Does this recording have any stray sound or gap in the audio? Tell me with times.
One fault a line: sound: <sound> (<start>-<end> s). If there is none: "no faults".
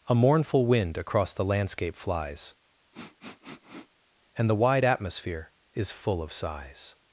sound: sniff (2.9-4.0 s)